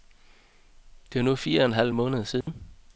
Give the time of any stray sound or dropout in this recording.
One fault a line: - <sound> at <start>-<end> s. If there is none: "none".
- dropout at 2.4-2.5 s